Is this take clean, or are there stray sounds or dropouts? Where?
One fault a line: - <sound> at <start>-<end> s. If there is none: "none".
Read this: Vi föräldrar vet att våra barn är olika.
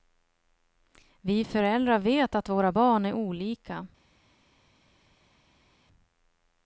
none